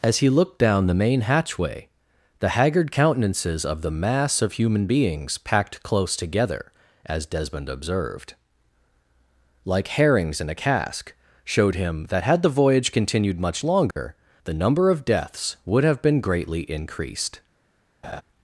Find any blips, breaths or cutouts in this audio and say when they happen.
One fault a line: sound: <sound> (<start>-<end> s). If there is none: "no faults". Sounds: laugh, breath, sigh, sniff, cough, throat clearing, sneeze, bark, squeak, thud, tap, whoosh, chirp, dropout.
sound: dropout (13.9-14.0 s)
sound: laugh (18.0-18.2 s)